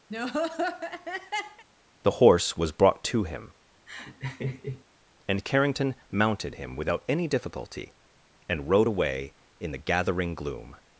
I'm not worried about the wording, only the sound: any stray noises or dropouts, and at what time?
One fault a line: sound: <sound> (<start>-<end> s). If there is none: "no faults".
sound: laugh (0.1-1.6 s)
sound: laugh (3.9-4.8 s)